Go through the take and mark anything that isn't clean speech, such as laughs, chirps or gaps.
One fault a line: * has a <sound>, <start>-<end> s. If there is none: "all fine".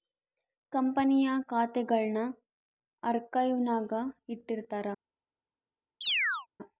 * has a chirp, 6.0-6.5 s